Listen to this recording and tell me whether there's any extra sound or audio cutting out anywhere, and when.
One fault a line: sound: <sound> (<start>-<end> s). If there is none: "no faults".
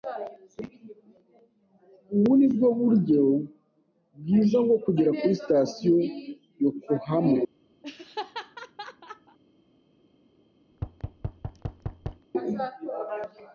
sound: laugh (7.8-9.4 s)
sound: thud (10.7-12.3 s)